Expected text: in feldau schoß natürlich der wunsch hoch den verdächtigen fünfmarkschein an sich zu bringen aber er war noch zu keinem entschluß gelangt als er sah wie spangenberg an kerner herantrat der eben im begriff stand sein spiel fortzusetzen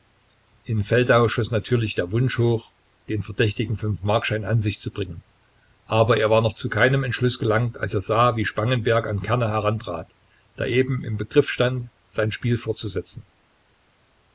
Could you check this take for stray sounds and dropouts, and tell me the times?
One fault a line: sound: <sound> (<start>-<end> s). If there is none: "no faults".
no faults